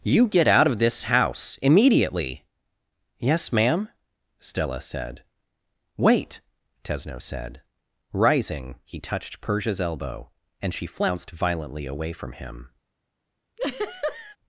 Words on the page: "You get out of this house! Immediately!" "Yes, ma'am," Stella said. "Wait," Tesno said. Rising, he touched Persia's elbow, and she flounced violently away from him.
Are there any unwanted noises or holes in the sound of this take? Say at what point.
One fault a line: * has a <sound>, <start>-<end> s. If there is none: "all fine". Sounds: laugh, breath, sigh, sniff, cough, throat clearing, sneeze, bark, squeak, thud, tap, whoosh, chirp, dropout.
* has a laugh, 13.6-14.4 s